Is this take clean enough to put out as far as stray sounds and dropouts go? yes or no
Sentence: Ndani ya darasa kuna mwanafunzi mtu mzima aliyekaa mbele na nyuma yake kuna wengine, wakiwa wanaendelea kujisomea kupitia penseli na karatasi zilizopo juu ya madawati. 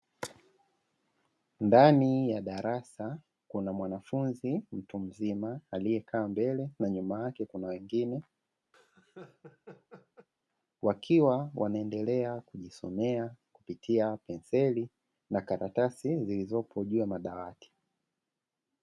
no